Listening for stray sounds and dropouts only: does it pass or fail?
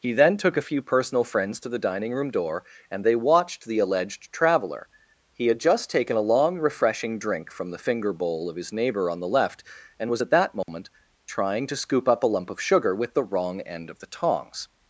fail